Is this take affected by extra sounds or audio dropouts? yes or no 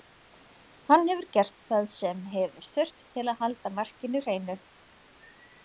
no